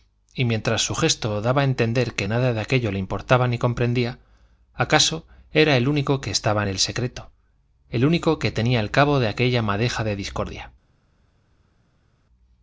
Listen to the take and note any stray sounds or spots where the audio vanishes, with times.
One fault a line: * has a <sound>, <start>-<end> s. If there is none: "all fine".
all fine